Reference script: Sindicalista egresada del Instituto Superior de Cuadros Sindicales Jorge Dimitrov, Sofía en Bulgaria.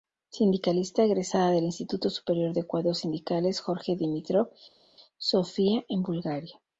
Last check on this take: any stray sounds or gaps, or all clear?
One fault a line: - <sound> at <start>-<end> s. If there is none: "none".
none